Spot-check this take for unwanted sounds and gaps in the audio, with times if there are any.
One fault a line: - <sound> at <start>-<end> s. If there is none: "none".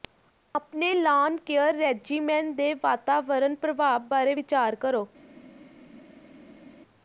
none